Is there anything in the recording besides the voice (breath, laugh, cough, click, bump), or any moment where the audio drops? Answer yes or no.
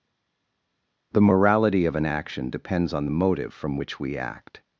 no